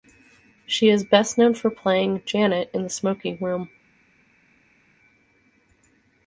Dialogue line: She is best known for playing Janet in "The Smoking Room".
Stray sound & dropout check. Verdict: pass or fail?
pass